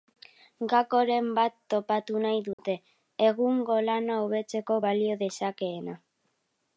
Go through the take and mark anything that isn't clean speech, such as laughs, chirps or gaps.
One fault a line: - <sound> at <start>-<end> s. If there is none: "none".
- dropout at 2.5-2.6 s